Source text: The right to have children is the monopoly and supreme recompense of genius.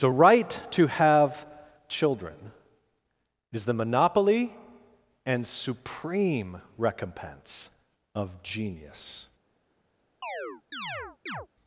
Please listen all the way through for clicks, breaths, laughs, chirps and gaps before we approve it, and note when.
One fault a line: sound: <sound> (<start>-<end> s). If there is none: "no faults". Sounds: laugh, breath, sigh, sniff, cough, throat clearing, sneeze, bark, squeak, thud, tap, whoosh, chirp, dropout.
sound: chirp (10.2-11.5 s)